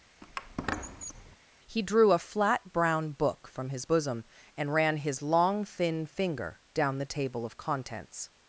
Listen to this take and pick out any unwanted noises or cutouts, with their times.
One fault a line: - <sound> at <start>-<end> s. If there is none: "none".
- squeak at 0.2-1.4 s